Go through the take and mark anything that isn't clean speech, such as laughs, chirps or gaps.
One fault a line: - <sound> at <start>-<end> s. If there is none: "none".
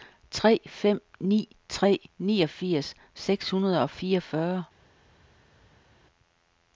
none